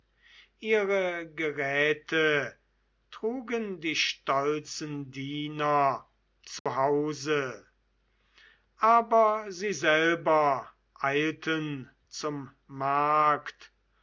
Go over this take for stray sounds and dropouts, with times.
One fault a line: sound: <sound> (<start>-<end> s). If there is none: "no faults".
sound: dropout (6.6-6.7 s)